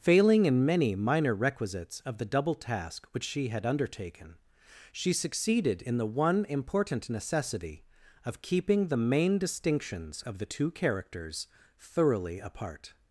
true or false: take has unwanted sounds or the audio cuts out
false